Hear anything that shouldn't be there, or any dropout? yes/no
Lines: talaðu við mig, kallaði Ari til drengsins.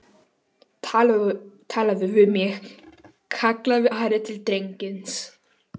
no